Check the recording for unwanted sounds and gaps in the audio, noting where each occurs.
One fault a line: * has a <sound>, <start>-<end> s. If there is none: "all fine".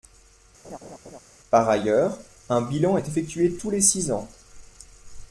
* has a laugh, 0.6-1.2 s